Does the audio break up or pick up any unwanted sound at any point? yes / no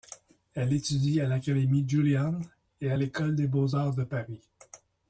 no